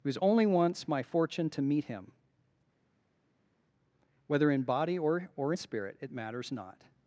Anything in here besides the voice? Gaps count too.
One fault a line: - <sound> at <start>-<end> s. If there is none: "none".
none